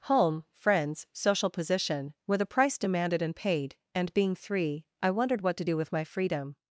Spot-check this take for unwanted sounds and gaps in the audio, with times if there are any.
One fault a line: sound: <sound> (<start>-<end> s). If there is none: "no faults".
no faults